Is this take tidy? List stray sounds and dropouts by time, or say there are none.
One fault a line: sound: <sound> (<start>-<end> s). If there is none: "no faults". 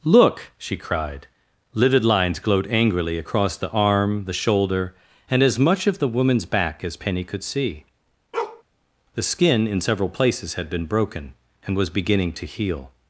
sound: bark (8.3-8.6 s)